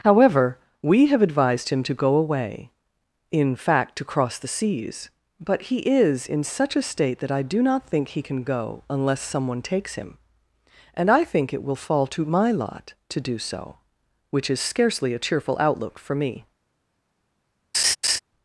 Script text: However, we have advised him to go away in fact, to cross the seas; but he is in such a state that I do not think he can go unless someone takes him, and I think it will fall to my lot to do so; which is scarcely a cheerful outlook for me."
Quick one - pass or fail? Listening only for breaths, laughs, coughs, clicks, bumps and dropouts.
fail